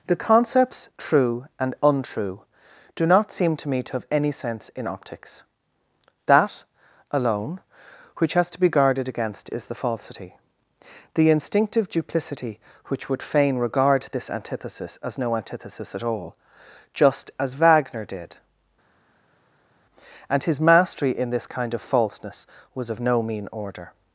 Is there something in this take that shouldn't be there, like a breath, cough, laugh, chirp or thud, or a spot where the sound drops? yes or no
no